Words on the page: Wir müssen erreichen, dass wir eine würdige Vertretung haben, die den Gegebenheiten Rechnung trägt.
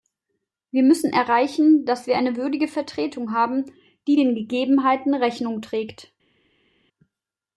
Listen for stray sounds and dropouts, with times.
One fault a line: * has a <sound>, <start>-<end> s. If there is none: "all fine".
all fine